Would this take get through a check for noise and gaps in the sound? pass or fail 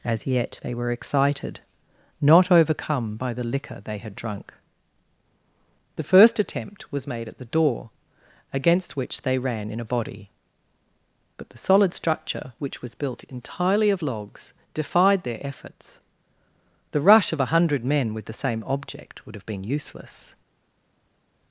pass